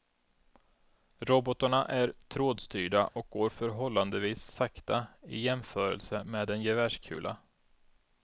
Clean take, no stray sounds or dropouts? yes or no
no